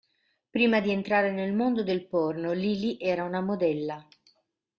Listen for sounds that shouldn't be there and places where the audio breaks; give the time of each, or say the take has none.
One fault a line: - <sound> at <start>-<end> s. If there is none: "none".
none